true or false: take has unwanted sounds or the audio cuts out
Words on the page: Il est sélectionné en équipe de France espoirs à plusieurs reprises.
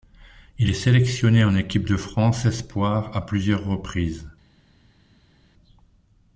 false